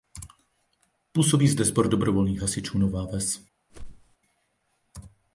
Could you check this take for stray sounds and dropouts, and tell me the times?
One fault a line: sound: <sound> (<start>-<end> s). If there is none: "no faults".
sound: whoosh (3.7-4.2 s)